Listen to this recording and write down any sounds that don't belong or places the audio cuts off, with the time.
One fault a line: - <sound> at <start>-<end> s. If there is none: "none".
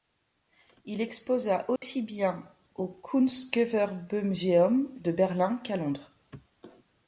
- dropout at 1.8-1.8 s